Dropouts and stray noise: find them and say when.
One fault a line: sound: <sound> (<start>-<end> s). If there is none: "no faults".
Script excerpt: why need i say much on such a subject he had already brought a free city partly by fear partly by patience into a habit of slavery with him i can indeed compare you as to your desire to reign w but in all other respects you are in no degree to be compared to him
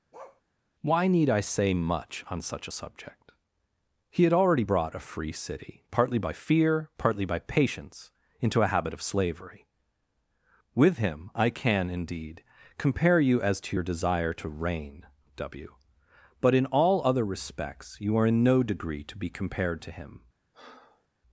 sound: bark (0.1-0.4 s)
sound: breath (20.5-21.1 s)